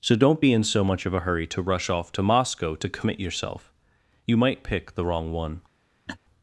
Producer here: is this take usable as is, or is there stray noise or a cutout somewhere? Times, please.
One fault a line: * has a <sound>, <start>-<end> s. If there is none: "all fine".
* has a laugh, 6.1-6.2 s